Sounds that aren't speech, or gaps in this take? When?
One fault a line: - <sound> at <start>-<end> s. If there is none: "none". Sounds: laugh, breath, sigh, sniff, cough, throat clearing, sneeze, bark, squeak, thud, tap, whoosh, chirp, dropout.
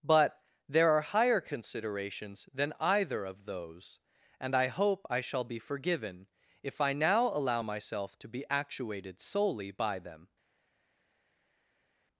none